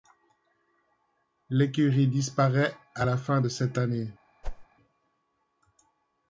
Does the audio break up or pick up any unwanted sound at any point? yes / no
yes